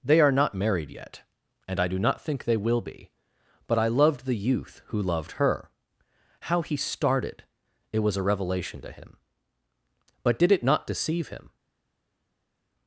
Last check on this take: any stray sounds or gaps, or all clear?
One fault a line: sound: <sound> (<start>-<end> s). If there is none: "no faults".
no faults